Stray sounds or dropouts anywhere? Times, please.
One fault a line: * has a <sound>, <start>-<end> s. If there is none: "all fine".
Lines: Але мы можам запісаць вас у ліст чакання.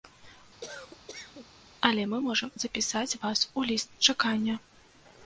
* has a cough, 0.6-1.5 s